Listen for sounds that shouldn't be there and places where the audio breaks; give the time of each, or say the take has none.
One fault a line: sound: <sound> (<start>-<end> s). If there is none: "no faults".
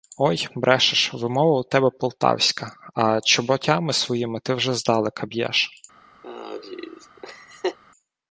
sound: laugh (6.2-7.8 s)